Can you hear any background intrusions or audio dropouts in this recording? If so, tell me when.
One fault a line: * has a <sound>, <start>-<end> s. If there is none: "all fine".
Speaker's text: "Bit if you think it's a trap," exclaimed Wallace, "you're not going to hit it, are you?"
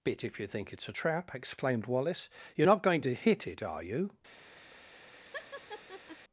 * has a laugh, 5.3-6.2 s